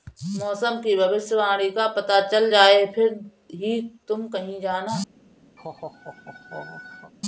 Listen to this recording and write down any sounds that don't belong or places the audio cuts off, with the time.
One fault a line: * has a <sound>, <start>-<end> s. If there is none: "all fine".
* has a laugh, 5.6-7.1 s